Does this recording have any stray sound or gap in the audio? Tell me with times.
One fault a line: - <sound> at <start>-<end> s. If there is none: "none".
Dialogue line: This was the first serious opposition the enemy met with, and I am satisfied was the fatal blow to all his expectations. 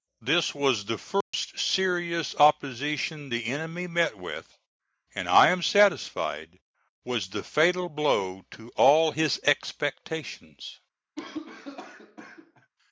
- dropout at 1.2-1.3 s
- cough at 11.2-12.7 s